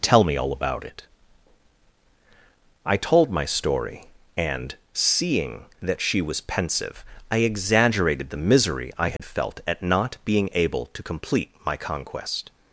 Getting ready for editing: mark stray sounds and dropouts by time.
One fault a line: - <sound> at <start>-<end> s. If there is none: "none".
- dropout at 9.2-9.2 s